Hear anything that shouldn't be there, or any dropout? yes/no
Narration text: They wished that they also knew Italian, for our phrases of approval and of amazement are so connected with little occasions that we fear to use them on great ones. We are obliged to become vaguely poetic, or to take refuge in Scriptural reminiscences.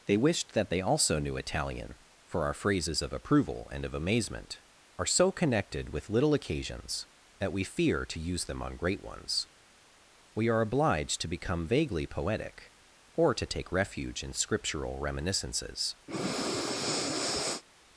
yes